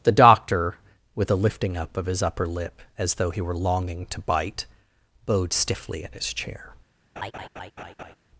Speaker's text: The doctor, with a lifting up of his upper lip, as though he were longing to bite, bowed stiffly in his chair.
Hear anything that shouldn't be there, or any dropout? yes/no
yes